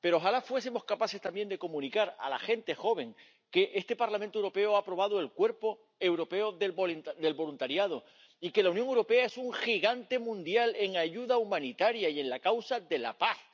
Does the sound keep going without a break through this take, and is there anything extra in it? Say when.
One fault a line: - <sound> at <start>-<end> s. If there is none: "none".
none